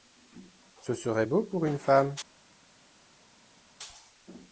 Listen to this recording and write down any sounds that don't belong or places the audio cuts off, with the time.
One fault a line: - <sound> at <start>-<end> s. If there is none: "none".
none